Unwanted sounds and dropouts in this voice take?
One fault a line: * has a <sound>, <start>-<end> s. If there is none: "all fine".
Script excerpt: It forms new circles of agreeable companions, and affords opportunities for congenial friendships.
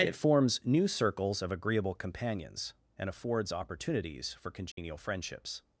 * has a dropout, 4.7-4.8 s